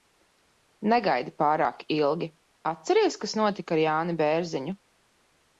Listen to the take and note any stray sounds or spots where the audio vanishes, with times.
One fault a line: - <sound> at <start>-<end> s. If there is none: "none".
none